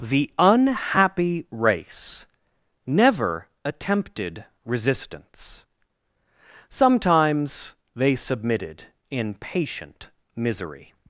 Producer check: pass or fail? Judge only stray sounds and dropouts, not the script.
pass